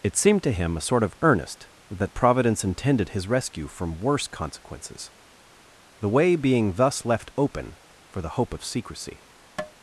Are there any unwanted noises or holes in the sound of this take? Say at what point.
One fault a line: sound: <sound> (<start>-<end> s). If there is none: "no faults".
sound: tap (9.6-9.7 s)